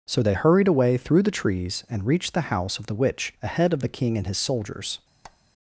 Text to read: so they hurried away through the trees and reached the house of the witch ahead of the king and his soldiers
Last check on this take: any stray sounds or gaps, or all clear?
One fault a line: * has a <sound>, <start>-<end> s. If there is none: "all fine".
* has a squeak, 5.2-5.4 s